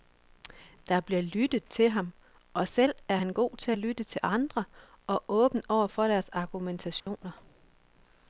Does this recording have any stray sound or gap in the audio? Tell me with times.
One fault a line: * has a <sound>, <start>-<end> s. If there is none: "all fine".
* has a dropout, 7.0-7.1 s